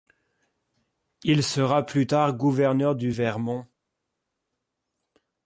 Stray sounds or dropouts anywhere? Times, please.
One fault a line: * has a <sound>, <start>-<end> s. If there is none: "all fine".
all fine